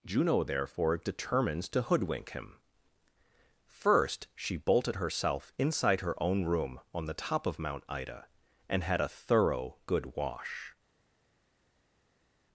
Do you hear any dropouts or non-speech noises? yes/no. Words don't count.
no